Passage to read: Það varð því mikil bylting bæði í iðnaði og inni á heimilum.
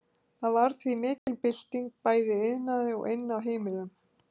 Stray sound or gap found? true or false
true